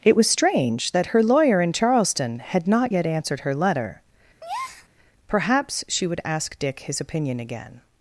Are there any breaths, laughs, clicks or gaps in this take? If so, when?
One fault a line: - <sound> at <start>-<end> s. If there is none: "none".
- breath at 4.4-4.9 s